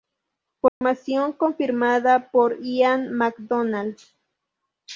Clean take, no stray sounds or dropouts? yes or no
no